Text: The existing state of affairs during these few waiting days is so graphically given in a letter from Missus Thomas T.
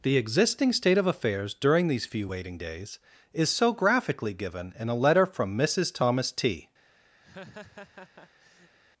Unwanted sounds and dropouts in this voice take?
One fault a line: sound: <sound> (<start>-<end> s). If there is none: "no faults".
sound: laugh (7.2-8.8 s)